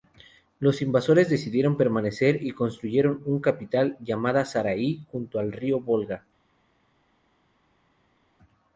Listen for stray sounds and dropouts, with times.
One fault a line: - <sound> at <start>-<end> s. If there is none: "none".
none